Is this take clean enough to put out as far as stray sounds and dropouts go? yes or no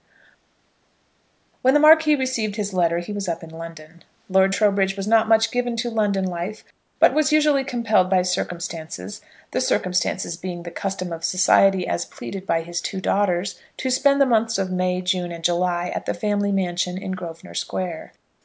yes